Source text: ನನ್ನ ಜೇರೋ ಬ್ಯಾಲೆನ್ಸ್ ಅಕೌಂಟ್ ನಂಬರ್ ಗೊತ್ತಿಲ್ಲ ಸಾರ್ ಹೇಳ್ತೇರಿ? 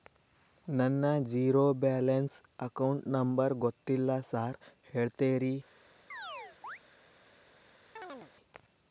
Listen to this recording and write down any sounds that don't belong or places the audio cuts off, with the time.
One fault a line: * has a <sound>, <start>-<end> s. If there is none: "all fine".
* has a chirp, 6.1-6.8 s
* has a chirp, 8.0-8.3 s